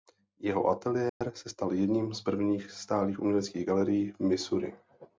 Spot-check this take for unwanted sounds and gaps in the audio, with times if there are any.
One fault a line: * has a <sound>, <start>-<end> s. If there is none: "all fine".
* has a dropout, 1.1-1.2 s